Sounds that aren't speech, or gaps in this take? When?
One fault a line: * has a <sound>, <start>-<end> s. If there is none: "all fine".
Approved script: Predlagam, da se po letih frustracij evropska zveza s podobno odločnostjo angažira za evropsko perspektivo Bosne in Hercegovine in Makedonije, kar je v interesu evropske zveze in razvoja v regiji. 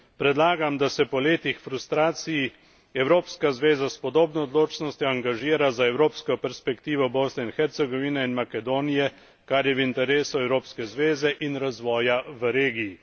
all fine